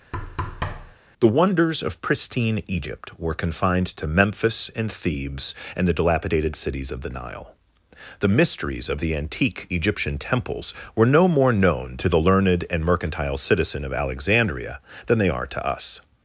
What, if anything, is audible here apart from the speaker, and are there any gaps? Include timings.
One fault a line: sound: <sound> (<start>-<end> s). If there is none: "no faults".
sound: thud (0.1-1.0 s)